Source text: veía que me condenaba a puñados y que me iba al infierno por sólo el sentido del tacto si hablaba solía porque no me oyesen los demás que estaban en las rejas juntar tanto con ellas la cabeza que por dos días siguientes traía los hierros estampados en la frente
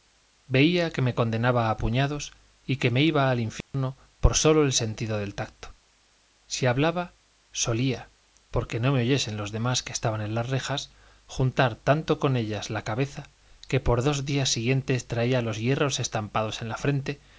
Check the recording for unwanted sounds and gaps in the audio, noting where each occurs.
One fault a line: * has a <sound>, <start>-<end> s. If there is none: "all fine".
* has a dropout, 3.6-3.7 s